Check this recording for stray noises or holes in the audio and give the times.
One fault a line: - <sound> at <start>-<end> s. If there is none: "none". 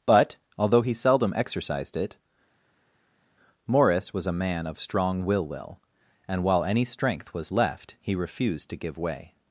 none